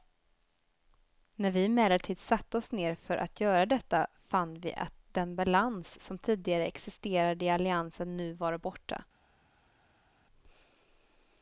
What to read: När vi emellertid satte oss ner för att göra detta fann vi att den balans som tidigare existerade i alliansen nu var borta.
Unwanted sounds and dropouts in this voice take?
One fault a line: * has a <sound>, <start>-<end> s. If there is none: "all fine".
all fine